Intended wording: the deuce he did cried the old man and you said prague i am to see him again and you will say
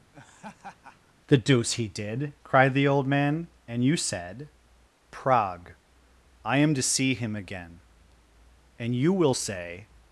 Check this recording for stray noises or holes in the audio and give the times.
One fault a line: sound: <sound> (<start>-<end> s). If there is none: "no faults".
sound: laugh (0.1-1.1 s)